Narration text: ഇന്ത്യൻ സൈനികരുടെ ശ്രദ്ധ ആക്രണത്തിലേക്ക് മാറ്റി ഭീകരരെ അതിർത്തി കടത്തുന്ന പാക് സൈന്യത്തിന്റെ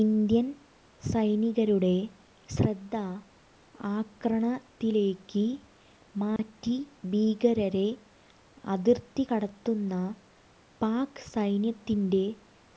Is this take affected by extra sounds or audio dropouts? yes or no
yes